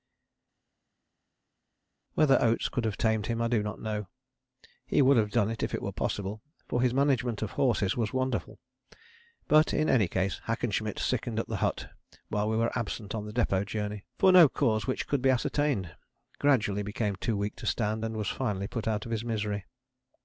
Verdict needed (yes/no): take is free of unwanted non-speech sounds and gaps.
yes